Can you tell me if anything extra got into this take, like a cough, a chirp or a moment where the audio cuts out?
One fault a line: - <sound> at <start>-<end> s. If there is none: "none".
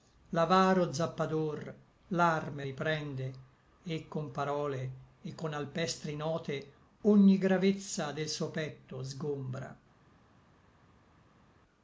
none